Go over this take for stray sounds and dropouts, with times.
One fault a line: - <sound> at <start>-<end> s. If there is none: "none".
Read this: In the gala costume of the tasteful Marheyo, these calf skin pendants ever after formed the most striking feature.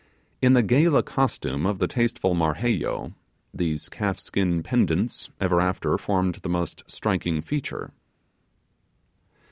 none